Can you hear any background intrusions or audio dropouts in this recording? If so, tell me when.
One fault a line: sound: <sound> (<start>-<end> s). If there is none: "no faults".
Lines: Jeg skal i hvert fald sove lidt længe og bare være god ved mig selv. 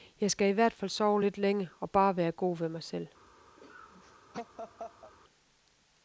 sound: laugh (3.6-5.1 s)